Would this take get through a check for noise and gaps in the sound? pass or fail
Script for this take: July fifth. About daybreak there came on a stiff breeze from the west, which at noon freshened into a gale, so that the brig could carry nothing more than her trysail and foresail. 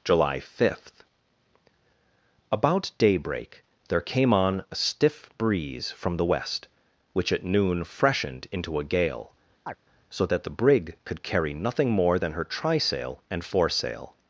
fail